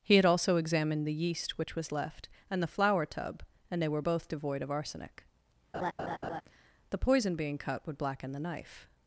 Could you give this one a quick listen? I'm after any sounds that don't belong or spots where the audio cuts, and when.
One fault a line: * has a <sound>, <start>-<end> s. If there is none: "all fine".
* has a laugh, 5.7-6.4 s